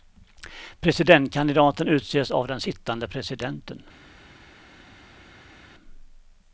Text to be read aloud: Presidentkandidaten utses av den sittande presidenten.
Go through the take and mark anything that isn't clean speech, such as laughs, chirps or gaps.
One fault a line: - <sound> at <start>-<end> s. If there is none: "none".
none